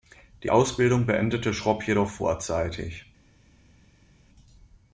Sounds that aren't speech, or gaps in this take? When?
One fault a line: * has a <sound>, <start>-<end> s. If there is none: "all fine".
all fine